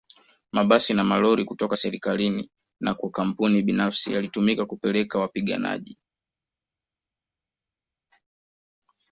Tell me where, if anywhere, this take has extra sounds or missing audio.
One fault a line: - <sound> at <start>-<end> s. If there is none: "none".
none